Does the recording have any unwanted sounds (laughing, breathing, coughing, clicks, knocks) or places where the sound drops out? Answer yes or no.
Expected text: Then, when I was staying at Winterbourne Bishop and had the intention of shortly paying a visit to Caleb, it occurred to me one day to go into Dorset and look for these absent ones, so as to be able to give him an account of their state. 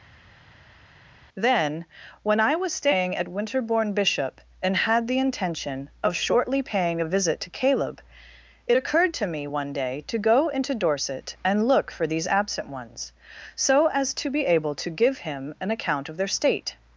no